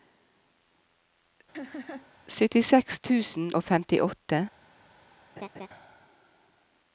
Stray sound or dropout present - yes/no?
yes